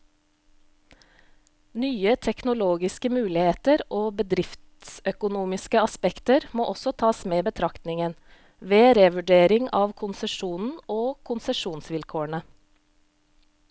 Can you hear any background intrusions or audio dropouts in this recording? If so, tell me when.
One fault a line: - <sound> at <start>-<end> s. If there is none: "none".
none